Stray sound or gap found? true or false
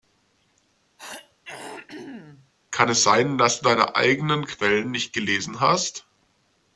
true